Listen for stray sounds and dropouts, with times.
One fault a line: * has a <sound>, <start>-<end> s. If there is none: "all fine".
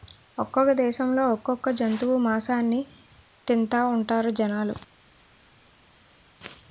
all fine